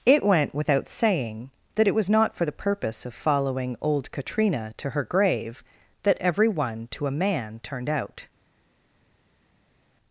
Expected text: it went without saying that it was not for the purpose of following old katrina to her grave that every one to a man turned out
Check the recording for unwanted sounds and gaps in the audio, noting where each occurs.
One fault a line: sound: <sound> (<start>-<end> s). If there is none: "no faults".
no faults